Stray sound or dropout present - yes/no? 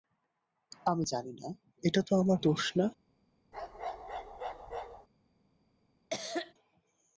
yes